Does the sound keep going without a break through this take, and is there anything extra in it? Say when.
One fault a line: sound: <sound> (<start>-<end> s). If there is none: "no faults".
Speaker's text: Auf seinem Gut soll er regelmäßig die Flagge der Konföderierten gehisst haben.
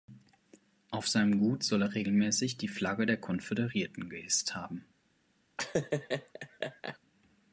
sound: laugh (5.6-7.0 s)